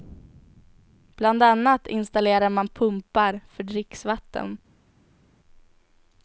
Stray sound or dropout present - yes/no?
no